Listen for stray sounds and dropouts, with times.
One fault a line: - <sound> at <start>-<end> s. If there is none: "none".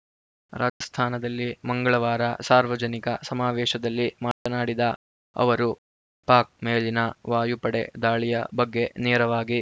- dropout at 0.7-0.8 s
- dropout at 4.3-4.5 s